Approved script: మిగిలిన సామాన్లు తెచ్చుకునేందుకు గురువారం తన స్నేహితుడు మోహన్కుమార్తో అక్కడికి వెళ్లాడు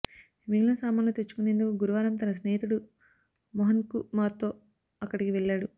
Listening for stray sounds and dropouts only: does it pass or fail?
pass